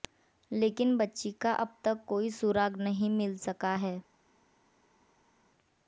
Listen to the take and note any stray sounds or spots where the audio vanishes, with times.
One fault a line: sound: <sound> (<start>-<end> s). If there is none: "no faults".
no faults